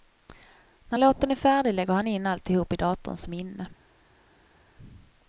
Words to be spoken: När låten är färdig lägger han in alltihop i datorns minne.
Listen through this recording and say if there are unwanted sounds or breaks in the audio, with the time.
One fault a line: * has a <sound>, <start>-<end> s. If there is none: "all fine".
all fine